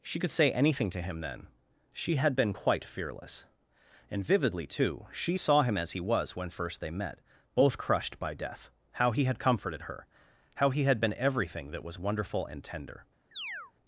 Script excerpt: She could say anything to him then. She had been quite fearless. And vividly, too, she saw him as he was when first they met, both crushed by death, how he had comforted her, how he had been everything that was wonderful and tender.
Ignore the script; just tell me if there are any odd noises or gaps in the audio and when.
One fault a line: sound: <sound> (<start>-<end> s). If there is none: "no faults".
sound: chirp (13.3-13.7 s)